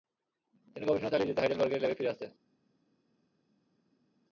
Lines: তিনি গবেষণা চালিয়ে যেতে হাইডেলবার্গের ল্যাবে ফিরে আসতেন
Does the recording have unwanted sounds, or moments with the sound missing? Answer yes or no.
no